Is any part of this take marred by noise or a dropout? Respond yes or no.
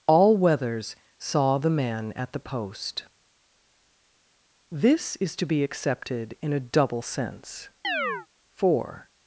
yes